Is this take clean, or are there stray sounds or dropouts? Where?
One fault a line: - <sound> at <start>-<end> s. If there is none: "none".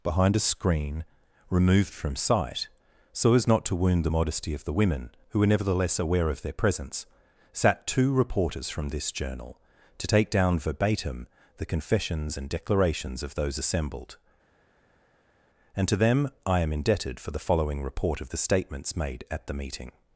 none